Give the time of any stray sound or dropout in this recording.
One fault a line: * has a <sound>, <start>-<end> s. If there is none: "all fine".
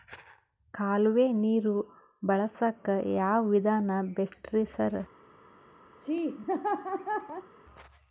* has a laugh, 6.0-7.5 s